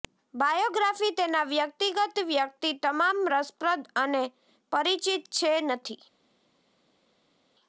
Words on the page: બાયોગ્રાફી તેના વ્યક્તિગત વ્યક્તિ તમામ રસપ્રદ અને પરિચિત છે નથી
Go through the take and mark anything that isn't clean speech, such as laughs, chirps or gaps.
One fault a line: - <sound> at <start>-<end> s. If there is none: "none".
none